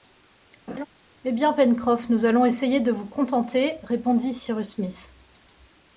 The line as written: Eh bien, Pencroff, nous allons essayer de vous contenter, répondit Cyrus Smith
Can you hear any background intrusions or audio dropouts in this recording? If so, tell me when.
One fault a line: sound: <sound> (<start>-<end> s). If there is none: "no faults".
sound: laugh (0.7-0.9 s)